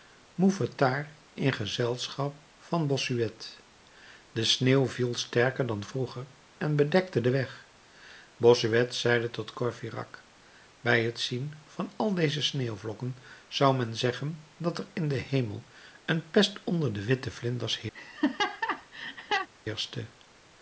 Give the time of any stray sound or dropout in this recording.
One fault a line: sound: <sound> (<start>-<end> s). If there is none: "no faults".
sound: laugh (17.9-19.5 s)